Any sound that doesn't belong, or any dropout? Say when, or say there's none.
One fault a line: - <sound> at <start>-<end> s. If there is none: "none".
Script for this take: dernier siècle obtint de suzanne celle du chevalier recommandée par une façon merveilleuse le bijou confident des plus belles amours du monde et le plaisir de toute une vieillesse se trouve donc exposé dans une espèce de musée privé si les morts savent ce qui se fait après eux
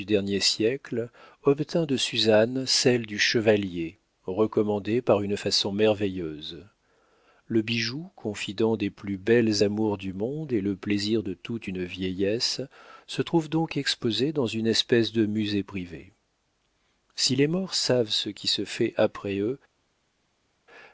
none